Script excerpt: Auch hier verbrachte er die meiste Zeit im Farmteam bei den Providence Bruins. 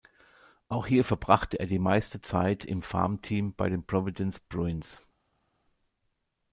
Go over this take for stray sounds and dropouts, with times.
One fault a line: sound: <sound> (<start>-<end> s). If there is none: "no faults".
no faults